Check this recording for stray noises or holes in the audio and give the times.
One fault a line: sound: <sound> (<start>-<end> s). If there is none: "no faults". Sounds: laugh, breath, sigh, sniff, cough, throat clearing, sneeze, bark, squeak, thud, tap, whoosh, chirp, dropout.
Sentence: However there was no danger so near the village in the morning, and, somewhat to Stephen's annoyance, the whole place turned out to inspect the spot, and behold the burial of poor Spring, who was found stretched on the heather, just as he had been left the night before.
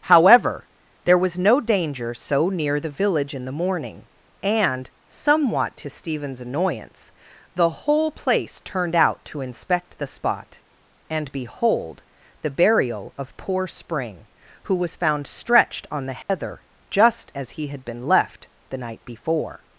sound: dropout (16.2-16.3 s)